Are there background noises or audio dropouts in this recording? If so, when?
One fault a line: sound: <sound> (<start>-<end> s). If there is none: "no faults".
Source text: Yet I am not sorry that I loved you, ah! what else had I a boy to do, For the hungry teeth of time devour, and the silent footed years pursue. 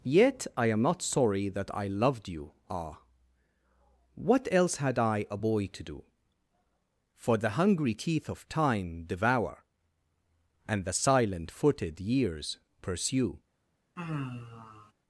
sound: sigh (14.0-14.9 s)